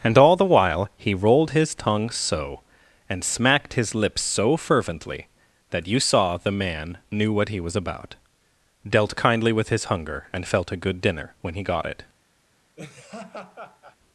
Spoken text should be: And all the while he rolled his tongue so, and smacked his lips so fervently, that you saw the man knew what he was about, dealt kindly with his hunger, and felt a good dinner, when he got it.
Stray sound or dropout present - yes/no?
yes